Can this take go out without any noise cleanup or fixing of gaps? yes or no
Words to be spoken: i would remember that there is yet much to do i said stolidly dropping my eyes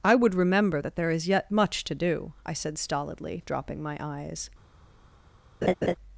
no